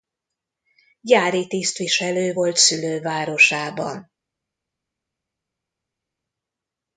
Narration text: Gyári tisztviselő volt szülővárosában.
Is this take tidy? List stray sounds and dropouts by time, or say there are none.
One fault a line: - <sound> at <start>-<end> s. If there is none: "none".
none